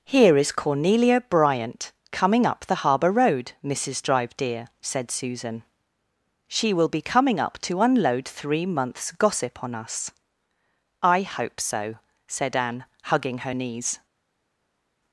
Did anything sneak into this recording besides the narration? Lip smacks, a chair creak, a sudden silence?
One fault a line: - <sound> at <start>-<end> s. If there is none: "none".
none